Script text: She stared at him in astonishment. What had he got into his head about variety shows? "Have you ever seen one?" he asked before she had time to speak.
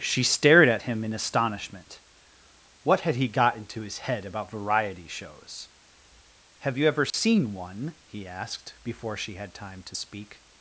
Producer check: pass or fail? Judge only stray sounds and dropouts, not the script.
fail